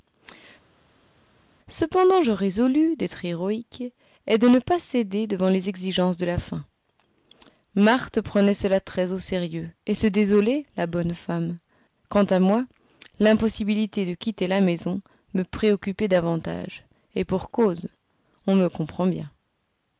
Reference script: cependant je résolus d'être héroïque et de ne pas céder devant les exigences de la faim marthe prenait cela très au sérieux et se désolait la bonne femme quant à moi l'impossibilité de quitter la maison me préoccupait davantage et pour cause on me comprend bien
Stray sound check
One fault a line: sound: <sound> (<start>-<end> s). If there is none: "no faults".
no faults